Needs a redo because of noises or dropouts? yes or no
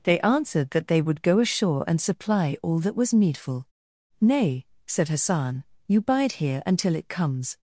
no